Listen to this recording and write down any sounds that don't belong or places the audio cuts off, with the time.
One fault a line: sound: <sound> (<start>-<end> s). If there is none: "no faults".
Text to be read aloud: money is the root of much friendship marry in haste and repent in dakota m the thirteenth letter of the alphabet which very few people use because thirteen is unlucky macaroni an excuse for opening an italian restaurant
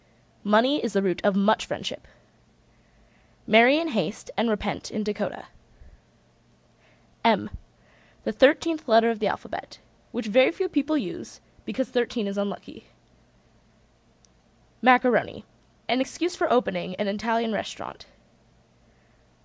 no faults